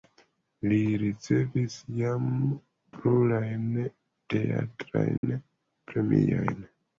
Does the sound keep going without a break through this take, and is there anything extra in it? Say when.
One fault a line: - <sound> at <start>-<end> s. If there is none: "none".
- dropout at 5.2-5.2 s